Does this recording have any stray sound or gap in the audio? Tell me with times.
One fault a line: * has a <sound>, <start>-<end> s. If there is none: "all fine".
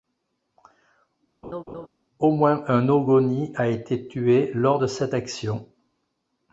* has a laugh, 1.4-1.9 s